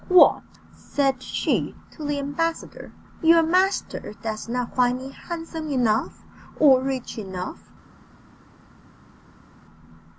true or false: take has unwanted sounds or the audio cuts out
false